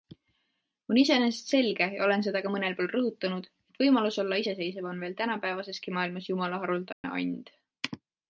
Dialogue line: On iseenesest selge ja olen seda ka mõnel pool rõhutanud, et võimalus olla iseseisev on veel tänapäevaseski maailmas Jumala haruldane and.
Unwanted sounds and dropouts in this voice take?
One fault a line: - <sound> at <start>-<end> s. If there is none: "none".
- dropout at 6.9-7.0 s